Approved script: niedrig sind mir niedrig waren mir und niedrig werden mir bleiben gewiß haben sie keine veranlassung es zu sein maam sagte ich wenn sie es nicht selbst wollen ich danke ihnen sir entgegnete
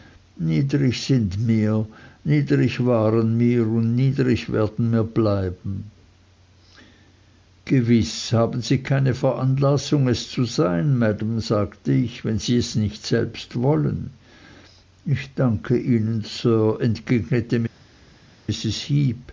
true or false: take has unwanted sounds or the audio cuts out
false